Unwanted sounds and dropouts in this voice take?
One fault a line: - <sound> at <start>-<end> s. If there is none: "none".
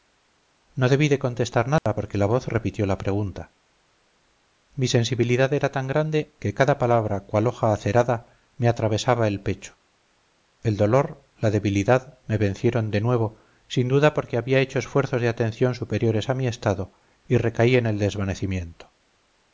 - dropout at 1.8-1.9 s